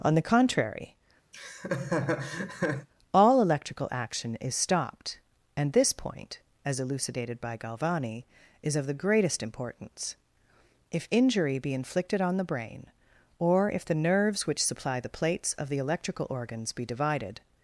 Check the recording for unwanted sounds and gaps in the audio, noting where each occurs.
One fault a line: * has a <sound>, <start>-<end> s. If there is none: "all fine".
* has a laugh, 1.3-2.9 s